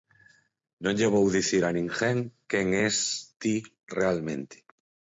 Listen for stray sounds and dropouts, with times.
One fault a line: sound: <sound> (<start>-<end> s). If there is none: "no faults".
no faults